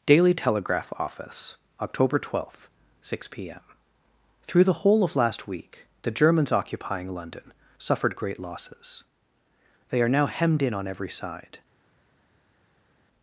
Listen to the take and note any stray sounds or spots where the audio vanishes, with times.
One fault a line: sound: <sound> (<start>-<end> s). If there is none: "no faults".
no faults